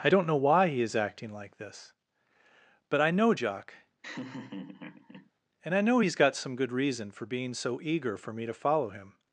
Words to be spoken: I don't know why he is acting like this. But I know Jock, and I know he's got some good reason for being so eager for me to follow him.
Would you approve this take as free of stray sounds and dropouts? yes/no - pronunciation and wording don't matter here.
no